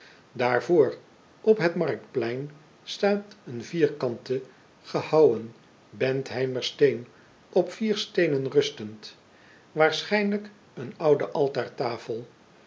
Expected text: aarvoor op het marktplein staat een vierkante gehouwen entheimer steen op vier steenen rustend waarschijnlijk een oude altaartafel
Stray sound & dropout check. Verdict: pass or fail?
pass